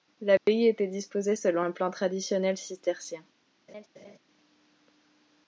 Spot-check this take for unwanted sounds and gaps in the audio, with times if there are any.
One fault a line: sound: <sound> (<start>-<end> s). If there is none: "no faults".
sound: dropout (0.4-0.5 s)
sound: laugh (3.7-4.2 s)